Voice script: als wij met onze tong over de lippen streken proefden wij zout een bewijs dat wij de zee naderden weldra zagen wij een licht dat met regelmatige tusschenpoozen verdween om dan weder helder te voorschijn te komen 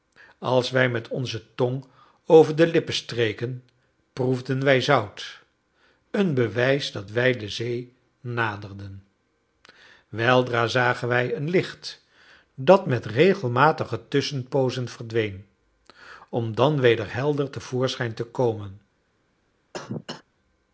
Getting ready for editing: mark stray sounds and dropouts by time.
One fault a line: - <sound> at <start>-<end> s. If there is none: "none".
- cough at 19.7-20.2 s